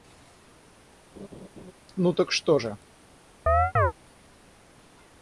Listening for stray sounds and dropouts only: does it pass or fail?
fail